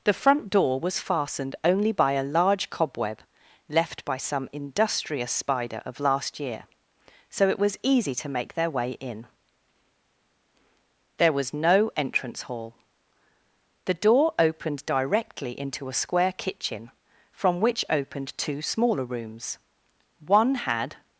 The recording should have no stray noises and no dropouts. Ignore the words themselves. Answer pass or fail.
pass